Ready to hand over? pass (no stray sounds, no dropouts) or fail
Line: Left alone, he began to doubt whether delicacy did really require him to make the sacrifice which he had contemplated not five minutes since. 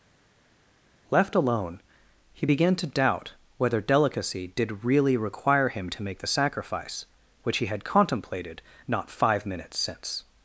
pass